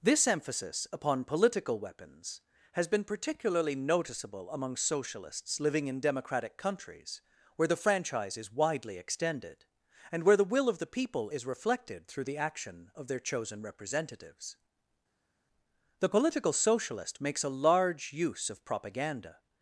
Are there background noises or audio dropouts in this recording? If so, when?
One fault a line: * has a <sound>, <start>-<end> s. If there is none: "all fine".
all fine